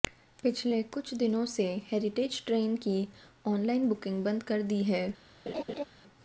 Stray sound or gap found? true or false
true